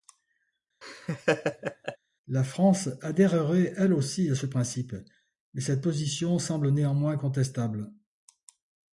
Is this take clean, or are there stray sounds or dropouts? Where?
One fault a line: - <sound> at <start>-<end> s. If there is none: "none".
- laugh at 0.8-2.0 s